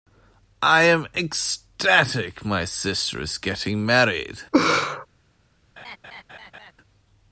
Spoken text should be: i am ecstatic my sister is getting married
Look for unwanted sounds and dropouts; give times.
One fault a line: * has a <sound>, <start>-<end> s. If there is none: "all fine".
* has a laugh, 4.5-5.1 s
* has a laugh, 5.8-6.7 s